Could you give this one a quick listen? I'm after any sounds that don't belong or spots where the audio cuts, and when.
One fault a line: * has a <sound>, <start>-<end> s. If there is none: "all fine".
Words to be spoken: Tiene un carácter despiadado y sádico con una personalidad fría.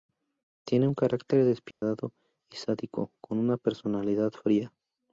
* has a dropout, 1.7-1.8 s